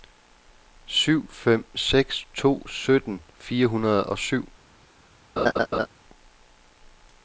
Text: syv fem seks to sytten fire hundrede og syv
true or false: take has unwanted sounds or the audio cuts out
true